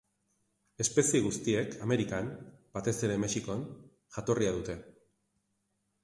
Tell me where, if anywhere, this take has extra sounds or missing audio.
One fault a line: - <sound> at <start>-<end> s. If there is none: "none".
none